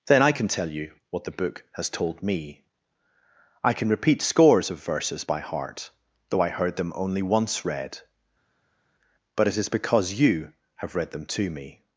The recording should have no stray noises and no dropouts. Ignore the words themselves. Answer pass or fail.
pass